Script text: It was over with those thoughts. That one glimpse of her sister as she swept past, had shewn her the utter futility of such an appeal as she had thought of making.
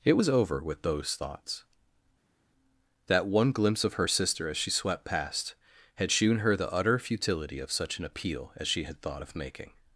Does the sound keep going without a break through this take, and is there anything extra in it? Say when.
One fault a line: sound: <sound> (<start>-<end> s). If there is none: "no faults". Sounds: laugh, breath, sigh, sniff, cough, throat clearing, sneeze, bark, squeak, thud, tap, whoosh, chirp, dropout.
no faults